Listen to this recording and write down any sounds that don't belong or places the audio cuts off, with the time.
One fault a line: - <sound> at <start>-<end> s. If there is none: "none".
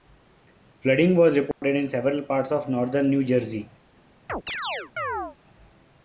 - dropout at 1.5-1.6 s
- chirp at 4.3-5.4 s